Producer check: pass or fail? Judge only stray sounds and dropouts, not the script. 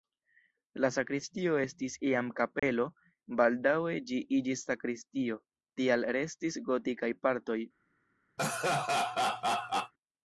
fail